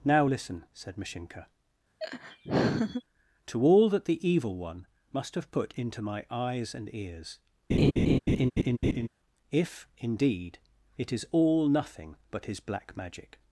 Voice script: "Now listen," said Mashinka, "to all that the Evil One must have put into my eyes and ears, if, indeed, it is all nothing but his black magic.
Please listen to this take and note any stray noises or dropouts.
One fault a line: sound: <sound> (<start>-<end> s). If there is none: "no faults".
sound: laugh (2.0-3.0 s)
sound: laugh (7.7-9.1 s)